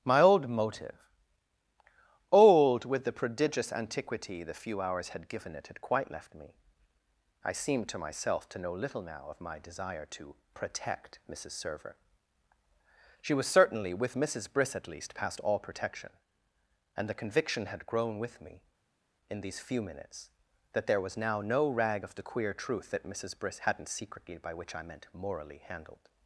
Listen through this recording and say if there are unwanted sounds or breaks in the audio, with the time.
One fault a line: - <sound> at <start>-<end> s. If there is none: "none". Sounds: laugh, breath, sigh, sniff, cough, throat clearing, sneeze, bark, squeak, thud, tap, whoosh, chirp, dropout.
none